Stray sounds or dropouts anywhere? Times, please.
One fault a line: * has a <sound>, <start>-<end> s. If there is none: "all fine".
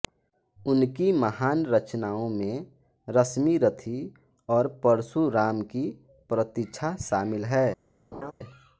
* has a laugh, 8.1-8.3 s